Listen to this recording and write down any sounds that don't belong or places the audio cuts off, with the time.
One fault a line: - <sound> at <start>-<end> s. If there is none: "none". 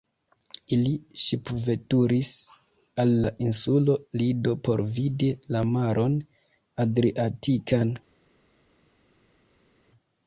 none